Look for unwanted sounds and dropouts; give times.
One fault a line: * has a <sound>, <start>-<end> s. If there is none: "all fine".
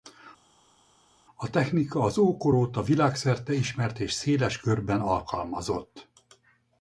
all fine